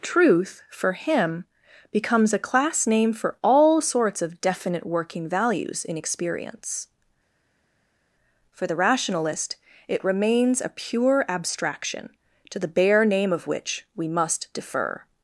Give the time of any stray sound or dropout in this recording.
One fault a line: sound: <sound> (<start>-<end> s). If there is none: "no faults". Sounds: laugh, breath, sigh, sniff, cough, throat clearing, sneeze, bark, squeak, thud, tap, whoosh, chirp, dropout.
no faults